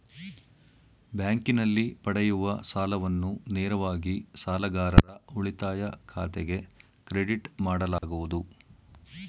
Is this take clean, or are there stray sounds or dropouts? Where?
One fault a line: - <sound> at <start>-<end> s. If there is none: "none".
- dropout at 8.0-8.0 s